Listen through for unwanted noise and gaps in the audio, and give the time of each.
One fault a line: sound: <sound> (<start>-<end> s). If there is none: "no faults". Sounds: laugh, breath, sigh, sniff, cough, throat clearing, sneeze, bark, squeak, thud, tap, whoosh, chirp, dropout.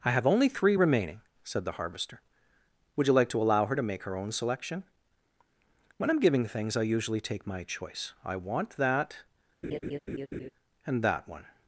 sound: laugh (9.6-10.5 s)